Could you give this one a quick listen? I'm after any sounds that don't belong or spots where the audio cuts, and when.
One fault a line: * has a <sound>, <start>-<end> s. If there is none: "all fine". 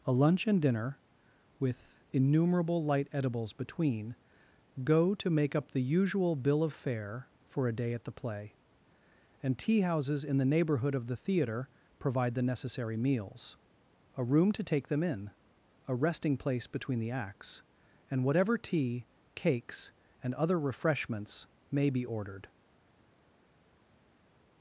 all fine